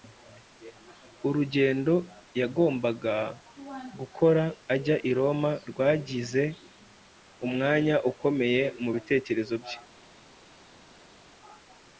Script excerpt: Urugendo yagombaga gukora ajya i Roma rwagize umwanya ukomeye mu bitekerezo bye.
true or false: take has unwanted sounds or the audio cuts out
false